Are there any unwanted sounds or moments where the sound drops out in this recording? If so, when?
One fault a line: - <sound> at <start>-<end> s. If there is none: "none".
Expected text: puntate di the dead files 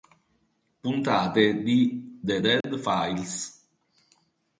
- dropout at 2.6-2.6 s